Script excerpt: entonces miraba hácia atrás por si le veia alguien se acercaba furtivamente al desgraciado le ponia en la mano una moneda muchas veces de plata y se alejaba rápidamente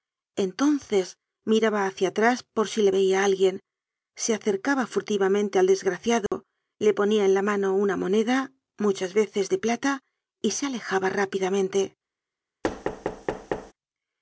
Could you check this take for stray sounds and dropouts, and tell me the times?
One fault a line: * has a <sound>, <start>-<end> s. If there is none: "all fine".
* has a dropout, 6.3-6.3 s
* has a thud, 12.6-13.7 s